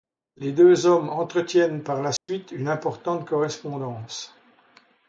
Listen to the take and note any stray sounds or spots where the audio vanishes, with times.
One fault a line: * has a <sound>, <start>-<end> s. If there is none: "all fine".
* has a dropout, 2.2-2.3 s